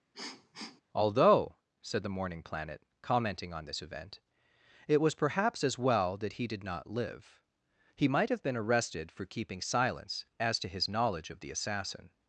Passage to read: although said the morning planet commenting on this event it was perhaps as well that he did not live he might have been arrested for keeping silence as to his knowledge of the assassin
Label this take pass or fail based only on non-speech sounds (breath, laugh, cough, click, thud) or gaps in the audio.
fail